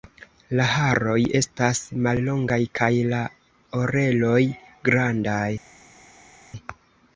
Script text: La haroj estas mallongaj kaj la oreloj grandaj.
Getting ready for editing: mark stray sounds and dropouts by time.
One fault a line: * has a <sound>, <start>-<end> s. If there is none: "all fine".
all fine